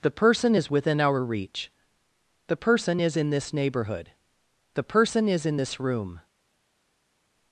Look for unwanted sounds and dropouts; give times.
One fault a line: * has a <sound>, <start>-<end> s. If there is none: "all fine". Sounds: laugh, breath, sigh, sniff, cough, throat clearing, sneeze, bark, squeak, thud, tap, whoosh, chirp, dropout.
all fine